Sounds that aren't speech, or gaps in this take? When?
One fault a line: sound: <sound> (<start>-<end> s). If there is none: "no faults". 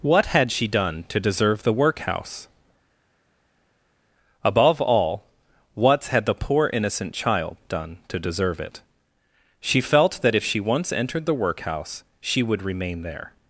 no faults